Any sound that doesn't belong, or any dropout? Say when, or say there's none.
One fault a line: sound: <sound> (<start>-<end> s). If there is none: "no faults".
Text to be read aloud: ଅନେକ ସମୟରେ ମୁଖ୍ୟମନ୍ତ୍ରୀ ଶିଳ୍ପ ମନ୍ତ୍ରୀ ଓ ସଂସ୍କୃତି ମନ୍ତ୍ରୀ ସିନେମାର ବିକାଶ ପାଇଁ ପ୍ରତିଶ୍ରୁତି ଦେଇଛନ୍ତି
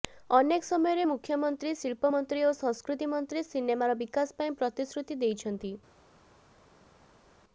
no faults